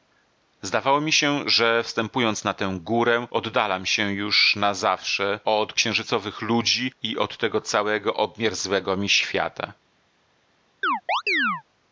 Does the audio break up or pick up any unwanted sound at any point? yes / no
yes